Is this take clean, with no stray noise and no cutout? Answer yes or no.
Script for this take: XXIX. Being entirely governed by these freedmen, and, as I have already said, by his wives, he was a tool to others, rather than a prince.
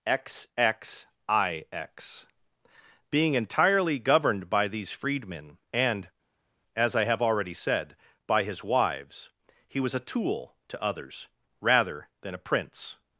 yes